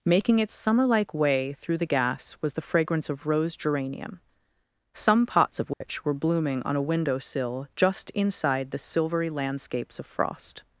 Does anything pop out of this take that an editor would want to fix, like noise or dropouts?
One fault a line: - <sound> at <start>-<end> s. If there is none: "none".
- dropout at 5.7-5.8 s